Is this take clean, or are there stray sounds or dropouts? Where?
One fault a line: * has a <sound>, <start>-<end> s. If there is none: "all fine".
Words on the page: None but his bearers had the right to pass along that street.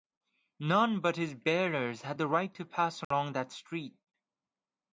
* has a dropout, 3.0-3.1 s